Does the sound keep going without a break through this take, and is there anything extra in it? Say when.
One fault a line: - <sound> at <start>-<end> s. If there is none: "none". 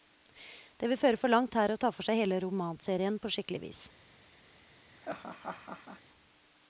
- laugh at 4.9-6.0 s